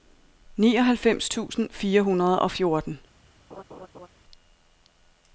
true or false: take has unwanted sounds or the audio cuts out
true